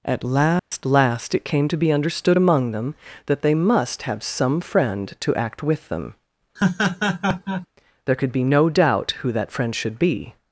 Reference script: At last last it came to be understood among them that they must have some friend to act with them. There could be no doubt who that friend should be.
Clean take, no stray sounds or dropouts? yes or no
no